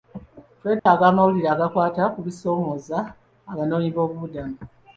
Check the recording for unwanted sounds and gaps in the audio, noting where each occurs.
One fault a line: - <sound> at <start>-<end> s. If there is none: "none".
- dropout at 0.8-0.9 s